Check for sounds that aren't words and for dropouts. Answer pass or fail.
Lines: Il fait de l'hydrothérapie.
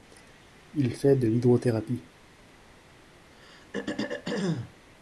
fail